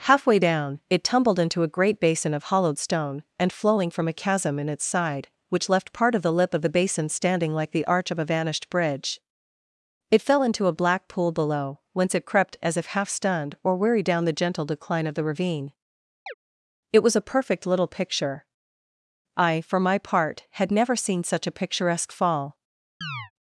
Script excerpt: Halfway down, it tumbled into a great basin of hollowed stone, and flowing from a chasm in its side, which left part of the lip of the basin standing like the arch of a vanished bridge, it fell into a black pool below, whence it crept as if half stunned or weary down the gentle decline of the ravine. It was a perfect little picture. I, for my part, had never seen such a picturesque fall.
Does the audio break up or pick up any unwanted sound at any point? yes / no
yes